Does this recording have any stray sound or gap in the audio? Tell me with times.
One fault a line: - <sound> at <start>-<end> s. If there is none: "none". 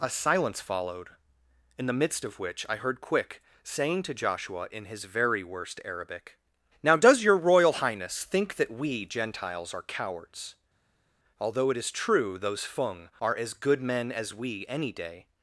none